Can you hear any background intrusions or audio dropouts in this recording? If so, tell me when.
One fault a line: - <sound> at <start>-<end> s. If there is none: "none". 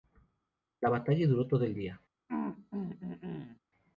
- throat clearing at 2.3-3.6 s